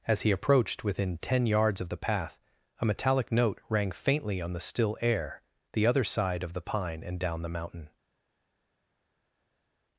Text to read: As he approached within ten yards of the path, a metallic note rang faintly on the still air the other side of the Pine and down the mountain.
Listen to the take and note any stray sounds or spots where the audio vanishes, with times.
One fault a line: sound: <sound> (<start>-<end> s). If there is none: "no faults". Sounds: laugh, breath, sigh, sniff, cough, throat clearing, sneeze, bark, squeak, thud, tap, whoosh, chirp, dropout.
no faults